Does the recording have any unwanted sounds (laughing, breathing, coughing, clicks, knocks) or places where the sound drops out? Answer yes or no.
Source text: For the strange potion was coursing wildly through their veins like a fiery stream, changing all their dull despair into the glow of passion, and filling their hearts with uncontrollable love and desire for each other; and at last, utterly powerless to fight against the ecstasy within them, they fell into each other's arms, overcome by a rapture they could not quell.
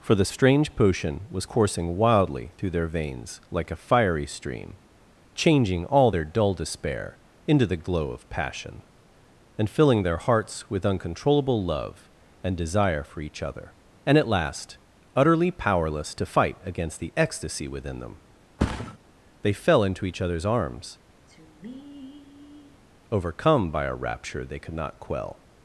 yes